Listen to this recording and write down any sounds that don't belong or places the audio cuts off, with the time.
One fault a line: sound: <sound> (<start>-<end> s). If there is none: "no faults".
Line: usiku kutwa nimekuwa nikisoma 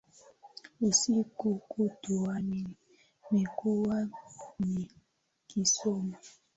no faults